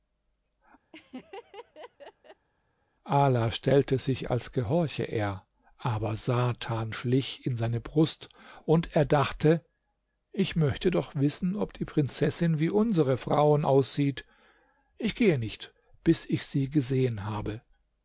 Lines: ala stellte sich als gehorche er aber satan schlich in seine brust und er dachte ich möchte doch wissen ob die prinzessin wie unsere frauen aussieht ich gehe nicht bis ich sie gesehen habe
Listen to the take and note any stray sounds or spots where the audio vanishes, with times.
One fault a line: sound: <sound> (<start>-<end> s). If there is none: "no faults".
sound: laugh (0.9-2.5 s)